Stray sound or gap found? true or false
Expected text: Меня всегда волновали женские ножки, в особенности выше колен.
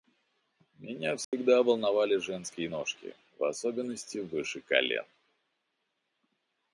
true